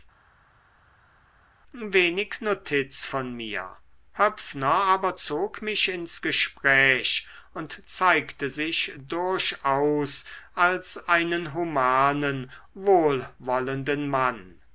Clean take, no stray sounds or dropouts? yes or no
yes